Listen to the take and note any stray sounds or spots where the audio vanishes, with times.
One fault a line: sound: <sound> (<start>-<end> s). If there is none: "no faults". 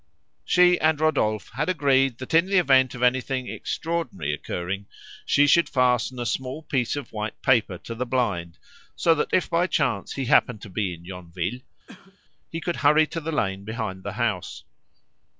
sound: cough (11.9-12.2 s)